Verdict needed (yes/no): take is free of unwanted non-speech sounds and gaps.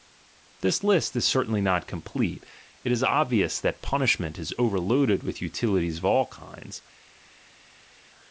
yes